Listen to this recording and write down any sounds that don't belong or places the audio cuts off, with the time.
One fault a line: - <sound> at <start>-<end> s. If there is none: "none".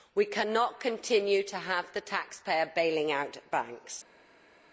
none